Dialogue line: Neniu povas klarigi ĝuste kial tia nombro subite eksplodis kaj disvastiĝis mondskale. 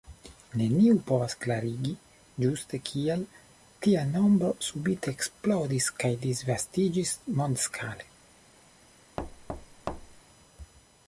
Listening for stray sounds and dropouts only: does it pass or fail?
fail